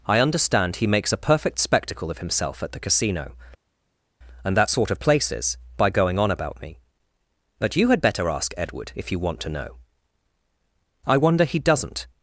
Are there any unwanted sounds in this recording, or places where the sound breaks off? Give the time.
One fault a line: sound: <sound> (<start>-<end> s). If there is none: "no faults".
no faults